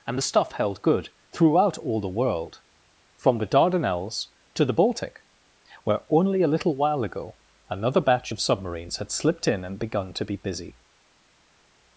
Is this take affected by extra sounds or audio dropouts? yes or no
no